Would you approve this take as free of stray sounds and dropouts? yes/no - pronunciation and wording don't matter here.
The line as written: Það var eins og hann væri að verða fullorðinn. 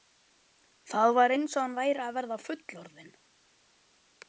yes